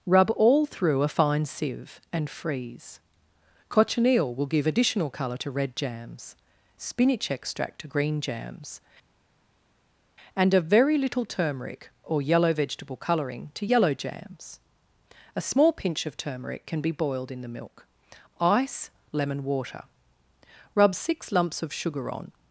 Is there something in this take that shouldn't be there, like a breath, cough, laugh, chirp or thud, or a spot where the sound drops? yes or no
no